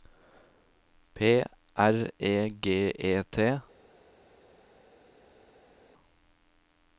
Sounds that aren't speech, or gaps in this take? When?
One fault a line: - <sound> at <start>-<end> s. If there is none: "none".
none